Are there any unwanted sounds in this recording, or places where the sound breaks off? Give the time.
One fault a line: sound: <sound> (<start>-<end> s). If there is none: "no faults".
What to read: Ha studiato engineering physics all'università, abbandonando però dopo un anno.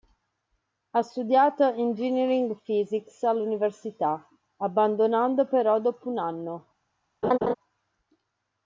sound: laugh (7.2-7.5 s)